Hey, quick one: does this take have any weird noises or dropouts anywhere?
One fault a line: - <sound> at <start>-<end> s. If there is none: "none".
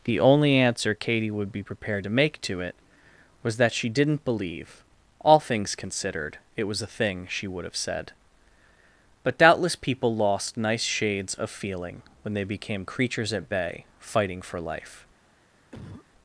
- cough at 15.7-16.1 s